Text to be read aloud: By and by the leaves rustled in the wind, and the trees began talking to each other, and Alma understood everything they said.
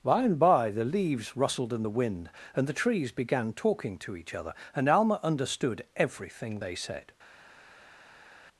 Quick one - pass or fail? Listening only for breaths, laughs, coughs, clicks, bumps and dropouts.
pass